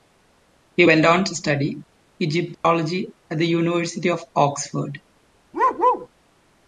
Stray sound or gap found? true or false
true